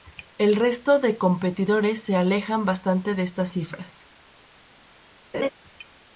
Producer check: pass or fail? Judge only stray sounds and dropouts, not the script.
fail